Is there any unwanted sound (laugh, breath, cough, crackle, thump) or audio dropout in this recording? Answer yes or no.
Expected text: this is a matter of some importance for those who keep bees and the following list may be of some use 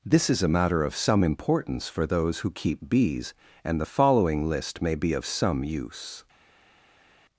no